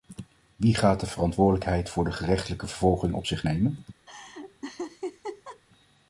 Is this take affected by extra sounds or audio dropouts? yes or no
yes